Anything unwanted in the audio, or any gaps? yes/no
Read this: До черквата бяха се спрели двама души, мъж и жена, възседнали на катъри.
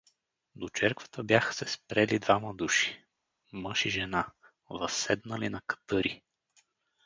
no